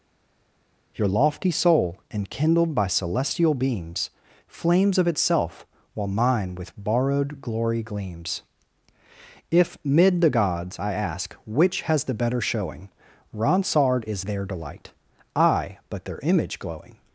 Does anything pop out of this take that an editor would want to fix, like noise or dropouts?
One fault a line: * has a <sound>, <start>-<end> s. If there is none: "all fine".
all fine